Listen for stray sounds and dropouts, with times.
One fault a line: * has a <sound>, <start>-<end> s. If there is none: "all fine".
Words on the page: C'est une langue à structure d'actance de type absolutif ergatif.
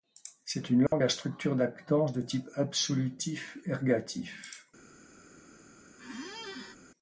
* has a dropout, 0.9-0.9 s
* has a squeak, 6.0-6.8 s